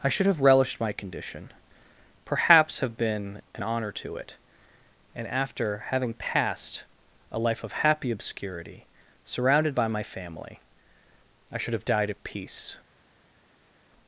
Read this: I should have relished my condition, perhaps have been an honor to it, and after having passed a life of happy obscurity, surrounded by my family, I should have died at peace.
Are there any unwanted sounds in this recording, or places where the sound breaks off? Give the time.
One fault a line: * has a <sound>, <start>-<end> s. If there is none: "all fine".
all fine